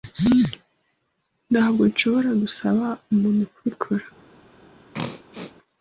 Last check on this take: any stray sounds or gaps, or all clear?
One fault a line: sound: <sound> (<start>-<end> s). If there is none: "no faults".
sound: throat clearing (4.9-5.5 s)